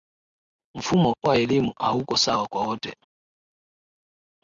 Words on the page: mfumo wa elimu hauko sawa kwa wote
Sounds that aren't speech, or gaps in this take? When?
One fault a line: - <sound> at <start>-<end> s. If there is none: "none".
none